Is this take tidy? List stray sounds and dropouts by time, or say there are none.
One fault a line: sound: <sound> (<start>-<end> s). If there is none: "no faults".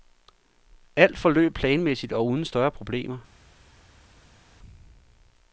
no faults